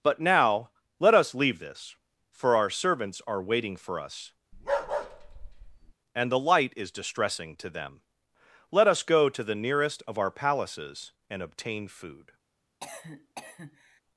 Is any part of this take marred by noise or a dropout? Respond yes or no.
yes